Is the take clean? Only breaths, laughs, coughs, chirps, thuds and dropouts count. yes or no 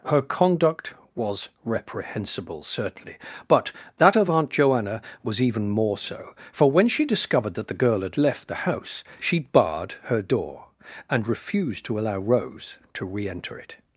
yes